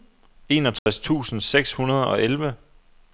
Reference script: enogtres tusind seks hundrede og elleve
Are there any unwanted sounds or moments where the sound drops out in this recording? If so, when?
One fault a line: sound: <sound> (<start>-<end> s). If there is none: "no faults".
sound: dropout (0.8-0.9 s)